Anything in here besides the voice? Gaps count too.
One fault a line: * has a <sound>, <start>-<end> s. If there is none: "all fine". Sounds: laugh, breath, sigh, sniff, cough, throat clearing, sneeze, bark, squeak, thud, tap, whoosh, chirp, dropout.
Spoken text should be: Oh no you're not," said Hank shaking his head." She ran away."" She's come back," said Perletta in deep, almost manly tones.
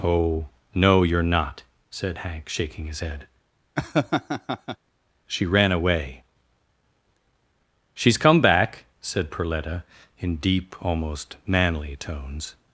* has a laugh, 3.8-4.8 s